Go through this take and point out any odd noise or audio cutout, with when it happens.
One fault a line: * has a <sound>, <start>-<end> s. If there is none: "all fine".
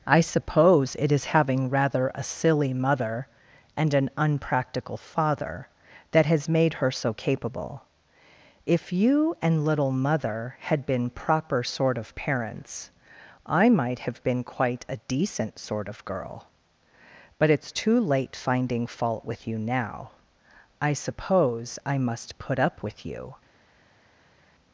all fine